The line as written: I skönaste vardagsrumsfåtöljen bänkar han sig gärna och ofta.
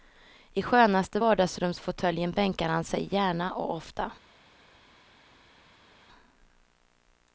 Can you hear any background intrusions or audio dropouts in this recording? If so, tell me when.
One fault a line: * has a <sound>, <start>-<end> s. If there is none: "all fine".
all fine